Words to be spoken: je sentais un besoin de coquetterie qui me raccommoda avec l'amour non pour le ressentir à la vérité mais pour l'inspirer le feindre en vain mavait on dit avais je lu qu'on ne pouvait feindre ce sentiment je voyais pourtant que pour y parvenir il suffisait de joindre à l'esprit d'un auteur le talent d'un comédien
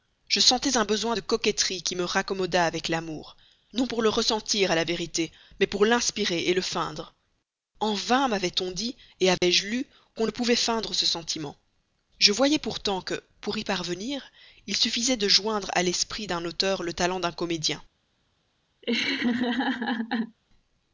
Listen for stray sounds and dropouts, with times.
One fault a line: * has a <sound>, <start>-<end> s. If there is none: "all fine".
* has a dropout, 9.4-9.4 s
* has a laugh, 18.8-20.4 s